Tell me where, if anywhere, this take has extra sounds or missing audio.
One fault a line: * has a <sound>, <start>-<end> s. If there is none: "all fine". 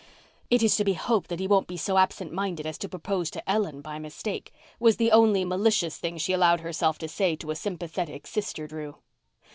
all fine